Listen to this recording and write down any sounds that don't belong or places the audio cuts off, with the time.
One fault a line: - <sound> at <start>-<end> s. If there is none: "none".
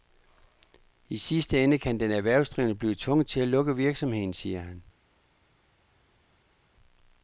none